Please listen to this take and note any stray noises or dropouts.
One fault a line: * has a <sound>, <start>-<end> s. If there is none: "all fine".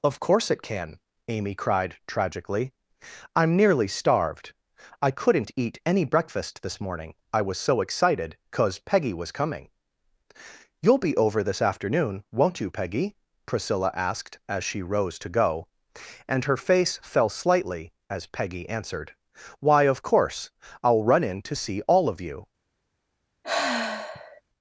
* has a sigh, 23.4-24.4 s